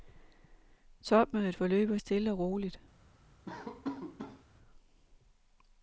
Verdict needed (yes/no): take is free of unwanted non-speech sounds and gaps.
no